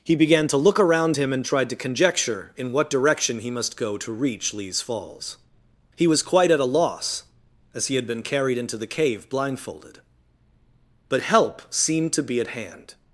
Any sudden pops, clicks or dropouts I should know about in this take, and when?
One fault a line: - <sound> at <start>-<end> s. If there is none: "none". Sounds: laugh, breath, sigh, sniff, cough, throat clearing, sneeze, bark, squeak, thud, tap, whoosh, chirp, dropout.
none